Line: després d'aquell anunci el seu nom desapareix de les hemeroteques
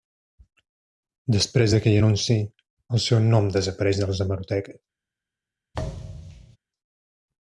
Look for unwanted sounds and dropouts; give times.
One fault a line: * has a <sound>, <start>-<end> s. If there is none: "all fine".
* has a thud, 5.7-6.6 s